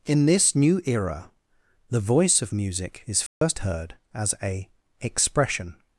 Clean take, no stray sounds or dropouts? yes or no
no